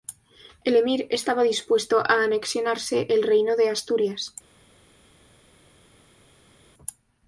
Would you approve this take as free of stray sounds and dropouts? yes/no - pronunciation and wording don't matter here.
yes